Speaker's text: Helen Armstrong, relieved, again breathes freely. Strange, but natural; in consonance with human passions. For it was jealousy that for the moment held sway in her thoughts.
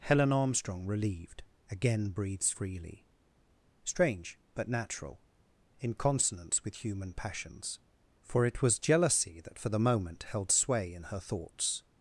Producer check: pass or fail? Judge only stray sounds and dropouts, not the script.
pass